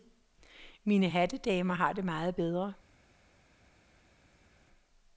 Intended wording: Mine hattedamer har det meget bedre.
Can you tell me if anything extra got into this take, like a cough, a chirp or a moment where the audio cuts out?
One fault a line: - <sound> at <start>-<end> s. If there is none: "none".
none